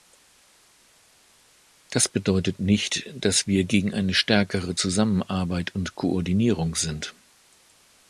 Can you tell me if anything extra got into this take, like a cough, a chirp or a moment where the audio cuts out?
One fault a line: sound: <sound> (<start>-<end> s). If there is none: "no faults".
no faults